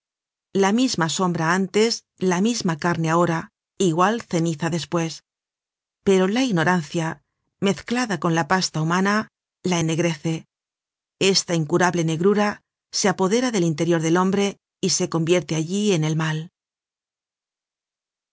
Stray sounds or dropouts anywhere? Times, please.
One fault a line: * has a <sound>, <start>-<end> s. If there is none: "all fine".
all fine